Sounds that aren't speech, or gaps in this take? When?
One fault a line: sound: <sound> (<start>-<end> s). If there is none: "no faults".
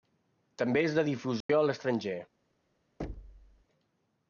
sound: dropout (1.4-1.5 s)
sound: thud (3.0-3.6 s)